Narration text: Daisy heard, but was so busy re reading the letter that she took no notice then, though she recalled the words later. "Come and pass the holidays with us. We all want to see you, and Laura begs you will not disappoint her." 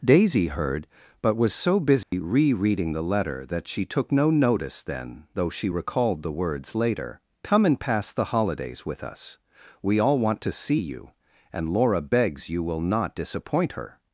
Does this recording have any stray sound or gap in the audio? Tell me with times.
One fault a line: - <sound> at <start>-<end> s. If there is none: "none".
- dropout at 2.0-2.1 s